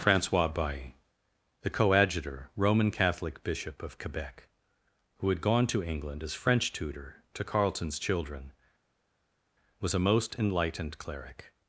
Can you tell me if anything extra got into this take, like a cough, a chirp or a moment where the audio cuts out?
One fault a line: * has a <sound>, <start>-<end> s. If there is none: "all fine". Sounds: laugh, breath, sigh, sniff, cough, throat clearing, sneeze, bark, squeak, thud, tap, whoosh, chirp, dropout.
all fine